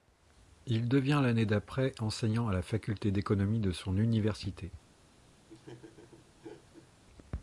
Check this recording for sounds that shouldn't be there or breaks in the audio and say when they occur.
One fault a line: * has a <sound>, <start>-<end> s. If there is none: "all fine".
* has a laugh, 5.4-6.9 s